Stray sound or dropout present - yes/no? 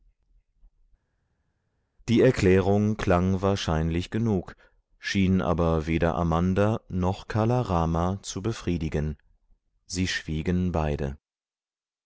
no